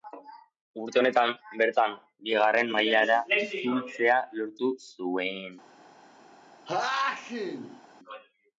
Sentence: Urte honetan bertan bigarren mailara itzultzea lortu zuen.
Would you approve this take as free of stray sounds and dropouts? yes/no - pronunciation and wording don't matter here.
no